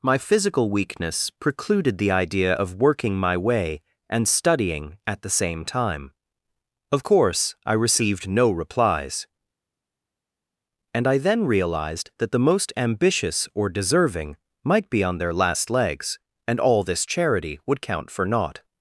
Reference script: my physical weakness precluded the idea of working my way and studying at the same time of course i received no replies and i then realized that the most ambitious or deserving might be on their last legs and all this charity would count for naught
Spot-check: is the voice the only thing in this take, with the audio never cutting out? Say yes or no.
yes